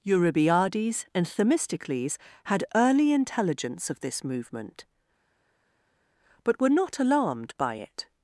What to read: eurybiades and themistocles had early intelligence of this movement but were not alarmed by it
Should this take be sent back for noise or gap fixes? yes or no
no